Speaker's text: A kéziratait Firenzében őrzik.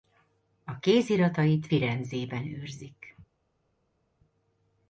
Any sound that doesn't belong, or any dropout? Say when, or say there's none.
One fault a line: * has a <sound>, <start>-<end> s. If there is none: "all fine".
all fine